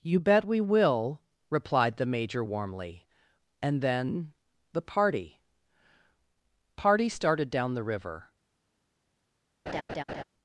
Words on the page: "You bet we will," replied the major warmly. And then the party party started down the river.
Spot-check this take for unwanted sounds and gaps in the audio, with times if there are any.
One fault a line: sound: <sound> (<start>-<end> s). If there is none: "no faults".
sound: laugh (9.7-10.2 s)